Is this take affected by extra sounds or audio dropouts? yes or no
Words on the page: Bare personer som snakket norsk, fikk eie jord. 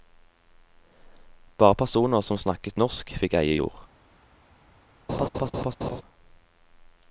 yes